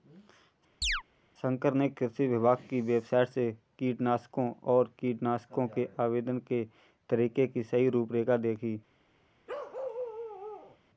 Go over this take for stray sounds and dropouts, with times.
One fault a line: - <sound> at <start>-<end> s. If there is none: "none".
- chirp at 0.8-1.0 s
- bark at 9.5-10.8 s